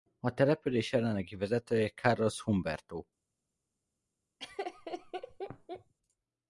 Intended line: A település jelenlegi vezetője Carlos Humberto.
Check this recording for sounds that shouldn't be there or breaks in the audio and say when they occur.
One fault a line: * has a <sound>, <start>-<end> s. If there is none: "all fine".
* has a laugh, 4.4-5.9 s